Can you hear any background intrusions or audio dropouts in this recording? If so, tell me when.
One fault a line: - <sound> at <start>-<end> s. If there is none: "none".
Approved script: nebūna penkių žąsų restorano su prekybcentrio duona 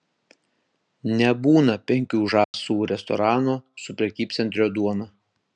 - dropout at 2.4-2.5 s